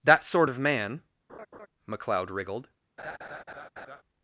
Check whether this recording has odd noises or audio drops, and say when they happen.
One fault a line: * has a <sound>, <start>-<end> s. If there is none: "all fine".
* has a laugh, 1.3-1.7 s
* has a laugh, 3.0-4.0 s